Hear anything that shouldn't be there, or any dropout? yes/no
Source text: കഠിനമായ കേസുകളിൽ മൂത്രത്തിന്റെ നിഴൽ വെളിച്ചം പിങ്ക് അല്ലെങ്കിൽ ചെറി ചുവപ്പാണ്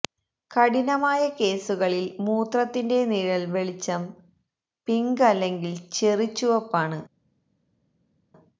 no